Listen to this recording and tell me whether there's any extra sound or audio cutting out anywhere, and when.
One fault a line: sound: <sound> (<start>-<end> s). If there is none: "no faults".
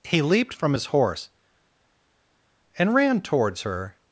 no faults